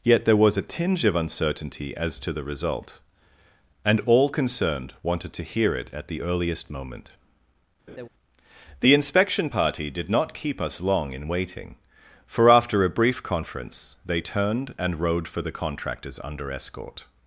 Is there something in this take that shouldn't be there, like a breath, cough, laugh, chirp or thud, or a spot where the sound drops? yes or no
yes